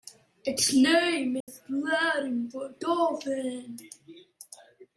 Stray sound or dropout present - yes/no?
yes